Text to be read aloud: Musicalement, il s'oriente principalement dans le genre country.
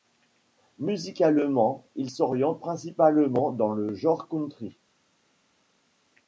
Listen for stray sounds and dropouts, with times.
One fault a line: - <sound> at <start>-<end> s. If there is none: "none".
none